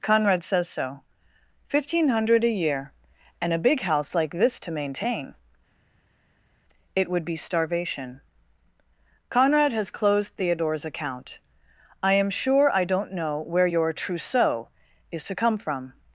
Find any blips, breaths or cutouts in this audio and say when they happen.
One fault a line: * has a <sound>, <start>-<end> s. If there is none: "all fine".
all fine